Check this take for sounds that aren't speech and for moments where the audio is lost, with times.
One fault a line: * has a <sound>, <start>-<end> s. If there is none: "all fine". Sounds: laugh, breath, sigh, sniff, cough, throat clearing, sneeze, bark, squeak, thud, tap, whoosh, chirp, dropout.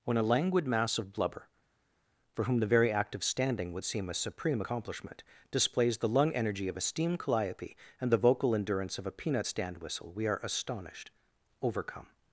all fine